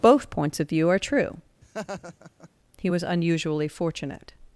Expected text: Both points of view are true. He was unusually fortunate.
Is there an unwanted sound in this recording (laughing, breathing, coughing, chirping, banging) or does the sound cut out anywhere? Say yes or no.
yes